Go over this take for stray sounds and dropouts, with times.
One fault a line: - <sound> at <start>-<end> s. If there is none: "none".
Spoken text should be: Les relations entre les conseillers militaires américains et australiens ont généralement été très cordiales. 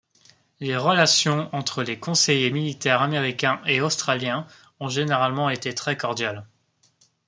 none